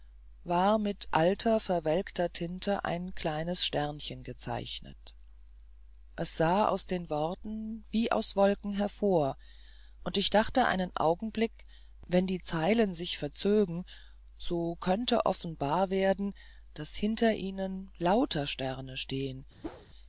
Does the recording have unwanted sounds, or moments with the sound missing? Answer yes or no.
yes